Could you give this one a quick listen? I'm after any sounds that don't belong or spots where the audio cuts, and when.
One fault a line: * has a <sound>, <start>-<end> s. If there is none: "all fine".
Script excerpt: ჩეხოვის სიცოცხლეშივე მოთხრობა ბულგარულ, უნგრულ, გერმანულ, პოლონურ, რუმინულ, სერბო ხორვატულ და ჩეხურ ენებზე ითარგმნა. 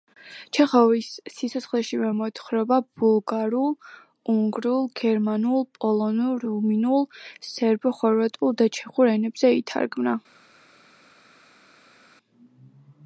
all fine